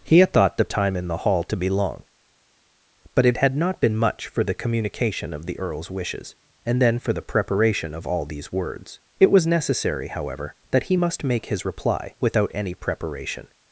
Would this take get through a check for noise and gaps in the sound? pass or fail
pass